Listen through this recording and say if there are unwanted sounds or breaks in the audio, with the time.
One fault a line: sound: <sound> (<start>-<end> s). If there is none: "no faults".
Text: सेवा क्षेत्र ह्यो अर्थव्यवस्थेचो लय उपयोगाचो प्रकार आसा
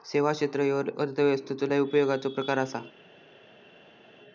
no faults